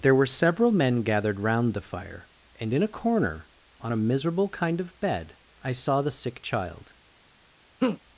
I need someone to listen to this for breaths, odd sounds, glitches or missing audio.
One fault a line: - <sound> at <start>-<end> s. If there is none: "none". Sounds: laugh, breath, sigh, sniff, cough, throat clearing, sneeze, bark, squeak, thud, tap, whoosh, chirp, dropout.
- laugh at 7.8-8.0 s